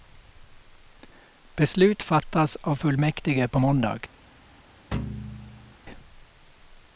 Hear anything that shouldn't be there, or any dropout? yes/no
yes